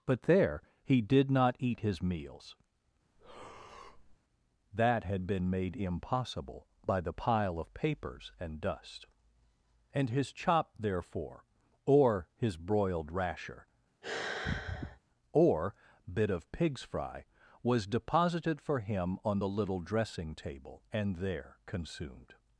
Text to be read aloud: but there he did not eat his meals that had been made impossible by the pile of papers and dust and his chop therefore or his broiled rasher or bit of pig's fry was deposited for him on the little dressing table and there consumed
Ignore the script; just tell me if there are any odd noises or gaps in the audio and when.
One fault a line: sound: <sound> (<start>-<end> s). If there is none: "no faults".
sound: breath (3.2-4.2 s)
sound: sigh (14.0-15.0 s)